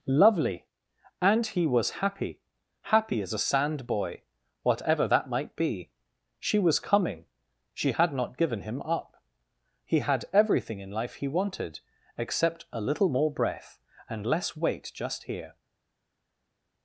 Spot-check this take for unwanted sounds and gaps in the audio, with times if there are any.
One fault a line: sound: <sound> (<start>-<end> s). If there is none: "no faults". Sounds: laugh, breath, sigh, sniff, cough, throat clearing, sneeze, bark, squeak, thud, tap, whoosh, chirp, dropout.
no faults